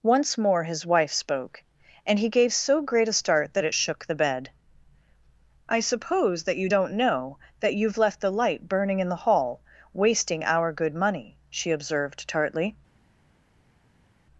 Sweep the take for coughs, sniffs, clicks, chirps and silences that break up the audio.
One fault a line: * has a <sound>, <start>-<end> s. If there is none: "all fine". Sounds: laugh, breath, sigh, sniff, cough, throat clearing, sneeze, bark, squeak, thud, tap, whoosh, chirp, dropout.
all fine